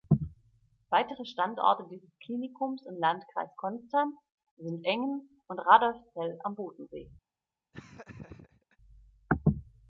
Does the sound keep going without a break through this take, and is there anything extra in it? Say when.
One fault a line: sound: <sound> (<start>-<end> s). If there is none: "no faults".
sound: laugh (7.7-8.8 s)